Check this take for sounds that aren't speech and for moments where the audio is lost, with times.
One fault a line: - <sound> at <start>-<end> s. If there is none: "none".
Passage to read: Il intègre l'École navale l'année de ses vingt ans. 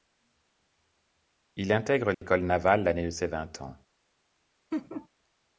- dropout at 2.1-2.2 s
- laugh at 4.7-5.1 s